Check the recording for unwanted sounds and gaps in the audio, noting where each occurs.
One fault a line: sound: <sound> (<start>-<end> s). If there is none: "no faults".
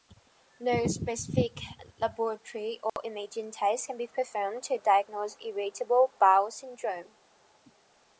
sound: dropout (2.9-3.0 s)